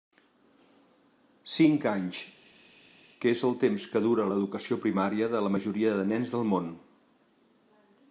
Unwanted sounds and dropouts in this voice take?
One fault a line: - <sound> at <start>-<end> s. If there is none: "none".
none